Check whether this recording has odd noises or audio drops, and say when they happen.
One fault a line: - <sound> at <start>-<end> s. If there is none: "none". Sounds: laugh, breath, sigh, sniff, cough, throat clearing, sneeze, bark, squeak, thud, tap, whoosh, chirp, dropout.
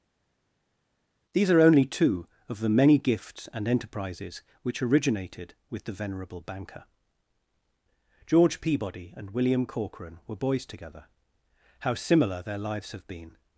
none